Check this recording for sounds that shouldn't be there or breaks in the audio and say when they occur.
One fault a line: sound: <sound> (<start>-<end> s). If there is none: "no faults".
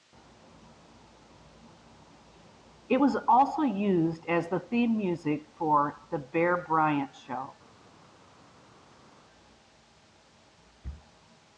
no faults